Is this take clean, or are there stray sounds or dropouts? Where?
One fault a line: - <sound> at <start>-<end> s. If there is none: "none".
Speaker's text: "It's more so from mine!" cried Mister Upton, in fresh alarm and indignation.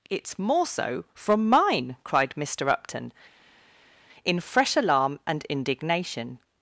none